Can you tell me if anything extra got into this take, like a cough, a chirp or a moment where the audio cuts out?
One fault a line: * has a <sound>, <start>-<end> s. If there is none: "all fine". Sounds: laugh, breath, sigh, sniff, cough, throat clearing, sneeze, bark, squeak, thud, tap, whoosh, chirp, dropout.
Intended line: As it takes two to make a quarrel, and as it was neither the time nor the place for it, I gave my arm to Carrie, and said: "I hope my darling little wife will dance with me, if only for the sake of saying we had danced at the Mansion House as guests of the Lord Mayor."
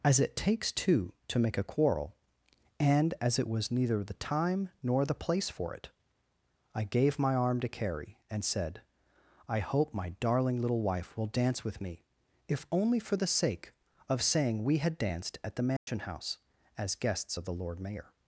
* has a dropout, 15.8-15.9 s